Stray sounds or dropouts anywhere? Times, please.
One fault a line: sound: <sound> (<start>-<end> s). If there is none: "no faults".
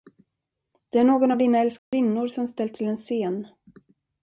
sound: dropout (1.8-1.9 s)